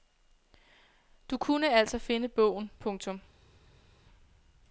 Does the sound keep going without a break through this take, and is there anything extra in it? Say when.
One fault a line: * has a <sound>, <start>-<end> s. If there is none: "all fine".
all fine